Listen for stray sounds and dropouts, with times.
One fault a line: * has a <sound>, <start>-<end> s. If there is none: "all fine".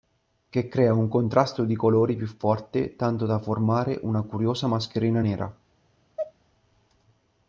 * has a sneeze, 6.2-6.3 s